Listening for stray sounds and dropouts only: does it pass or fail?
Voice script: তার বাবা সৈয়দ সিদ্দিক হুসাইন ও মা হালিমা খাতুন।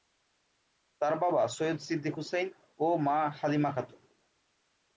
pass